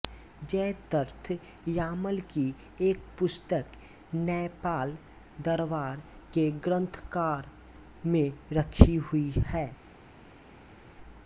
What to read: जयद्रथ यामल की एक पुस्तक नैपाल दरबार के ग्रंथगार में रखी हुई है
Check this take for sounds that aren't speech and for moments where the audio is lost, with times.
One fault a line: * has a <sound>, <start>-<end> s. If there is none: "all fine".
all fine